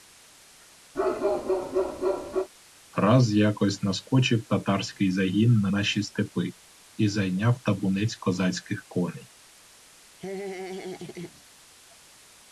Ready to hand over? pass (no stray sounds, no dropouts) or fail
fail